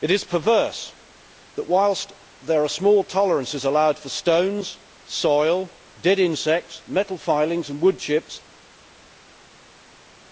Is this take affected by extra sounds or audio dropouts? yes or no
no